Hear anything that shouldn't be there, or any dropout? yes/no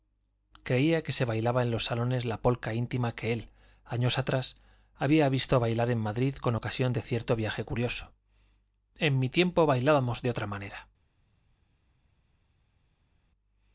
no